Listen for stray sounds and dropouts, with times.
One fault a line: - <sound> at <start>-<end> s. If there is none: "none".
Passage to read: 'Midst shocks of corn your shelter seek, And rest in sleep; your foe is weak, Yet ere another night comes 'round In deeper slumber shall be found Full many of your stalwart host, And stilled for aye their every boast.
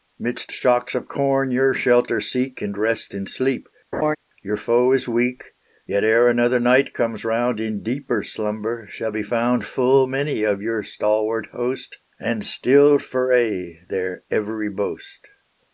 - laugh at 3.9-4.2 s